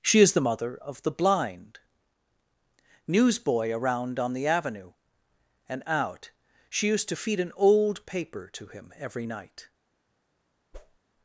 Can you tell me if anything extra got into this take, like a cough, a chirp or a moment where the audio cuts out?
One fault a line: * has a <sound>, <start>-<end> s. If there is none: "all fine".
* has a whoosh, 10.7-11.0 s